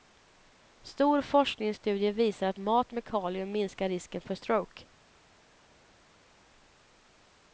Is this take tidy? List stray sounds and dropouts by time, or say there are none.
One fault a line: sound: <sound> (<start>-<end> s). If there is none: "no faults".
no faults